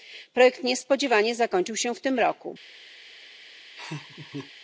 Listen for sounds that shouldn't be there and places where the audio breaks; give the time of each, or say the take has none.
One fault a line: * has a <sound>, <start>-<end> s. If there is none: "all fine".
* has a laugh, 3.8-4.5 s